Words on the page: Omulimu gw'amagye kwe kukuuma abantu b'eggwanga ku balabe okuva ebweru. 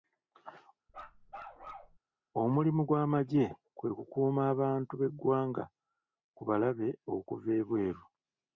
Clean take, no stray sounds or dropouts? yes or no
no